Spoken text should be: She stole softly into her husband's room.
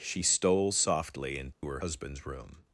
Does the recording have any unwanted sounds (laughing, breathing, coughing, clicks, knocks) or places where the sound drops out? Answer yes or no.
yes